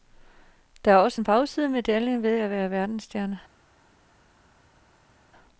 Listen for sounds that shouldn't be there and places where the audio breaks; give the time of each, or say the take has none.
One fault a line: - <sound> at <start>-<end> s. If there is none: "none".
none